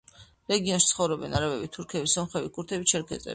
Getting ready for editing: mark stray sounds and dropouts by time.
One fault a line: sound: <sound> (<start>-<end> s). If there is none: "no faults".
no faults